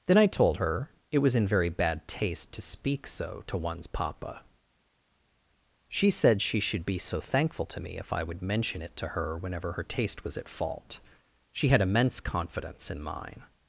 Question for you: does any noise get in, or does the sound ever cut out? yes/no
no